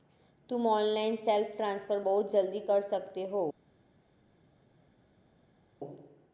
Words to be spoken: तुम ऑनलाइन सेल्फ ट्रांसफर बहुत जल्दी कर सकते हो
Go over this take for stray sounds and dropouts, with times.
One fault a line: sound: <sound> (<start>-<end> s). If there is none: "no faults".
no faults